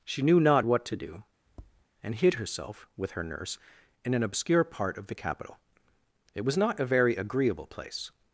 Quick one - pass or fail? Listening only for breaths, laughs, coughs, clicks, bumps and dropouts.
fail